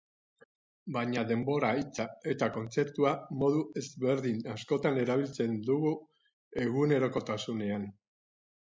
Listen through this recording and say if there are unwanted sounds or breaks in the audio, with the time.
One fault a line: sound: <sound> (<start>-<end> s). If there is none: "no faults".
no faults